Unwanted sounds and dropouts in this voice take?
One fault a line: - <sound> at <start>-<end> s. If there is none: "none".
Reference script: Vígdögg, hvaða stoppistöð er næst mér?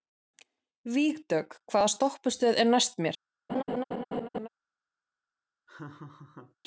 - laugh at 3.5-4.5 s
- laugh at 5.7-6.6 s